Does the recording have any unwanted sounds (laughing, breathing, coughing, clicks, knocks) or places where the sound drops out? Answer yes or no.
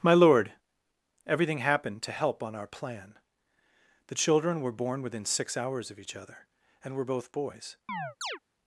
yes